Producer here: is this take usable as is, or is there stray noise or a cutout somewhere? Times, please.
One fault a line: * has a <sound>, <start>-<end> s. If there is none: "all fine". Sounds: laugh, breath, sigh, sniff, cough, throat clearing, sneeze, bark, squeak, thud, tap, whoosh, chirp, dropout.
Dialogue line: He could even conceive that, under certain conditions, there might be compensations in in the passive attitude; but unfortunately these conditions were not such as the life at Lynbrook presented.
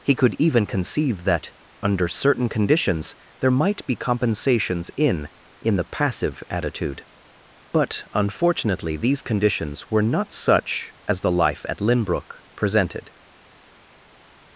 all fine